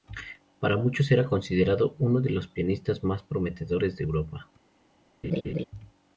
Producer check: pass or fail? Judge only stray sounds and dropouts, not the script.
fail